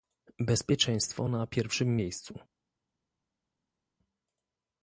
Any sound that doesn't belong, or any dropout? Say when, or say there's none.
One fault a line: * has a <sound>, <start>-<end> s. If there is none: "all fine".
all fine